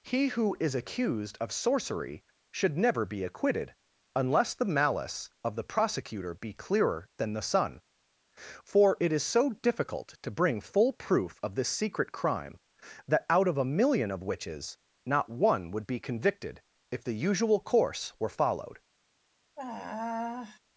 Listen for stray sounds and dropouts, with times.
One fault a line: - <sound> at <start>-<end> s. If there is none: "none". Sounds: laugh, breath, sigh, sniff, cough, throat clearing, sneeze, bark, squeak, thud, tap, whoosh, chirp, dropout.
- sigh at 19.6-20.6 s